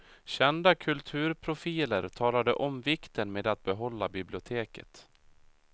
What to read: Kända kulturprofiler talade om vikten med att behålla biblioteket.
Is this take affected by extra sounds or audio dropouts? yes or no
no